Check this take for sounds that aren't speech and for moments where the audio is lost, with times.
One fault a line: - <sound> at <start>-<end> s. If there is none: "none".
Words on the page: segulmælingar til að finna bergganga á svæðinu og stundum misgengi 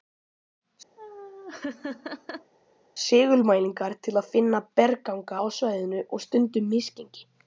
- laugh at 1.0-2.5 s